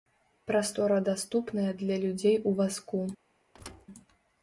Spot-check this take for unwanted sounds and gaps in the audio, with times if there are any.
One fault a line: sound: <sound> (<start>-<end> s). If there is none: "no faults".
sound: thud (3.5-3.9 s)